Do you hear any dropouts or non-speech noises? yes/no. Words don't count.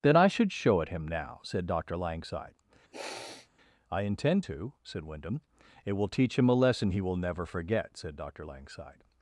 yes